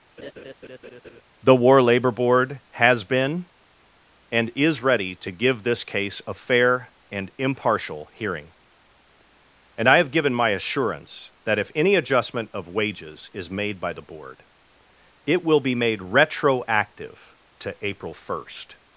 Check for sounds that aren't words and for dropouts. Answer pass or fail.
fail